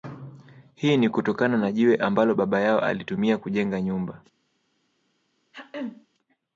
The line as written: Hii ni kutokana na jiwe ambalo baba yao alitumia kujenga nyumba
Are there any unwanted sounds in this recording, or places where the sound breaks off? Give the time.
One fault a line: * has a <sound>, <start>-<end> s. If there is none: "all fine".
* has a throat clearing, 5.5-6.1 s